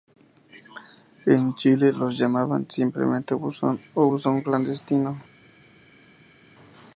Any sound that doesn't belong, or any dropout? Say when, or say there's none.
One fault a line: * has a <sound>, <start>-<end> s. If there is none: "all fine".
all fine